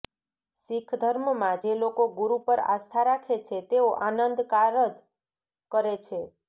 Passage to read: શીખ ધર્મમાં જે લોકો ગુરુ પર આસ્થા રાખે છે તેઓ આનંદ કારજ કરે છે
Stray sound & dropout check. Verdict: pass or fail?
pass